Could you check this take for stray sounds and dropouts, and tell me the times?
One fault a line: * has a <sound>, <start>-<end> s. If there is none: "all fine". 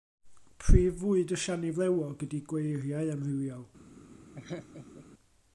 * has a laugh, 4.4-5.1 s